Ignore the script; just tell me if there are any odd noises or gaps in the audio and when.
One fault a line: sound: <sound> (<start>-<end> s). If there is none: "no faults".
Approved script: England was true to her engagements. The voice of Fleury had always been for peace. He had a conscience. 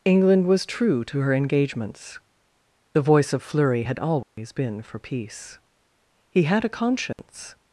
sound: dropout (4.2-4.4 s)
sound: dropout (7.1-7.2 s)